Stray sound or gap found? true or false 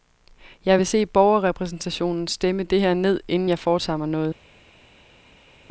false